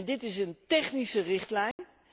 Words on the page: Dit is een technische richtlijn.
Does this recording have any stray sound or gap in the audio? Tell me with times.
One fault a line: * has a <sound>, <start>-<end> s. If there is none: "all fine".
* has a dropout, 1.7-1.8 s